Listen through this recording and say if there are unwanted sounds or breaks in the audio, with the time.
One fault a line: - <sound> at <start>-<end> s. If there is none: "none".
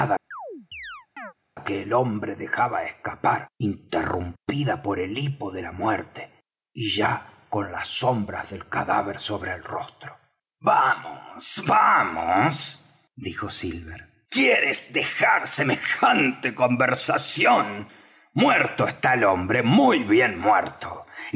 - chirp at 0.3-1.3 s